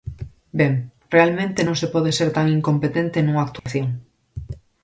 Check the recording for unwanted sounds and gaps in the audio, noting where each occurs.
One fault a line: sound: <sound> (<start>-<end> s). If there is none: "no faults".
sound: dropout (3.6-3.7 s)